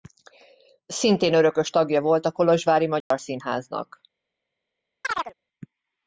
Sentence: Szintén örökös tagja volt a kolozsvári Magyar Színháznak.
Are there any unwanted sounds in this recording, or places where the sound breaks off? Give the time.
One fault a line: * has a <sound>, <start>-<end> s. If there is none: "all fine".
* has a dropout, 3.0-3.1 s
* has a chirp, 5.0-5.3 s